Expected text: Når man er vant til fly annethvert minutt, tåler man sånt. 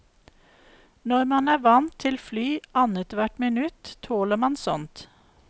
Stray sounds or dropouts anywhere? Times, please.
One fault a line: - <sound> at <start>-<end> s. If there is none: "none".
none